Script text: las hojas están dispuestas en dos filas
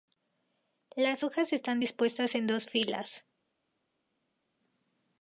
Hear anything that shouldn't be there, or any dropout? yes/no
no